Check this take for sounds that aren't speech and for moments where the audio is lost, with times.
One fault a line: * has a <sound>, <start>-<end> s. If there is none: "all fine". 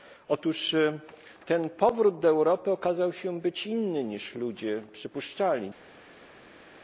all fine